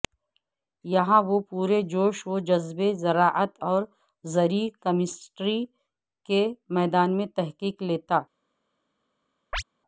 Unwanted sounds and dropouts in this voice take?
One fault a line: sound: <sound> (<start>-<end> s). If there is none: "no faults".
sound: chirp (9.5-9.6 s)